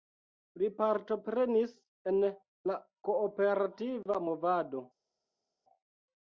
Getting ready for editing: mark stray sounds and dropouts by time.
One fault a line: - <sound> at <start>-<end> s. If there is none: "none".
none